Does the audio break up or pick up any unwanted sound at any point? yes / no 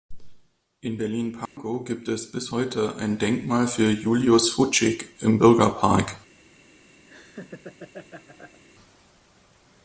yes